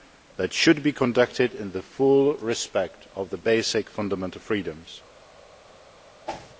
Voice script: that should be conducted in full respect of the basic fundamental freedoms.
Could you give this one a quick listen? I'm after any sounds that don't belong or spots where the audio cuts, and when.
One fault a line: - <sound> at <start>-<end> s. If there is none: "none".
- whoosh at 6.3-6.5 s